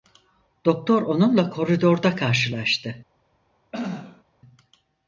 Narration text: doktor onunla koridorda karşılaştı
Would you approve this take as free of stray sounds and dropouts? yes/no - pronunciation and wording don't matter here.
no